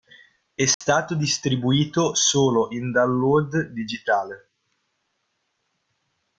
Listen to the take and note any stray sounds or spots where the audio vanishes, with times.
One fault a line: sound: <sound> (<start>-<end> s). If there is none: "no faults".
sound: dropout (0.7-0.8 s)